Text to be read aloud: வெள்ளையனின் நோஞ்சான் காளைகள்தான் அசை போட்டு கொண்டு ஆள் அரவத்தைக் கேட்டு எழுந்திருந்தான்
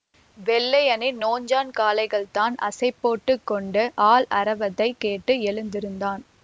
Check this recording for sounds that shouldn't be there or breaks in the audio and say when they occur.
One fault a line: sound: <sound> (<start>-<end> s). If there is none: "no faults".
no faults